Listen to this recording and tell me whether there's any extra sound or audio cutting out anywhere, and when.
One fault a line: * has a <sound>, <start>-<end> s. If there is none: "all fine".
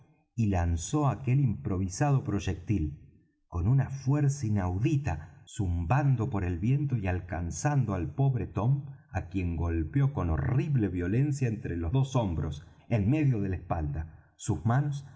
all fine